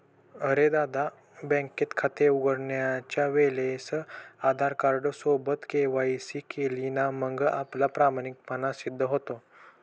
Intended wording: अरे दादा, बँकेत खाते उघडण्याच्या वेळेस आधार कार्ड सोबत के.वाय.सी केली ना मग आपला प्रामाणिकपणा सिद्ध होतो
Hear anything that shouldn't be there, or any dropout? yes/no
no